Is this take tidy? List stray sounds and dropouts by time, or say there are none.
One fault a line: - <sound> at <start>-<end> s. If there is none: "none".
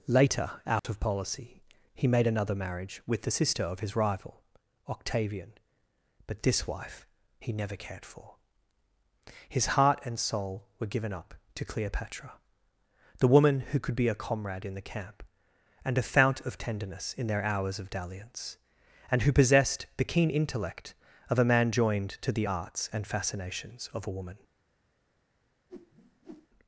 - dropout at 0.8-0.8 s
- whoosh at 25.7-26.5 s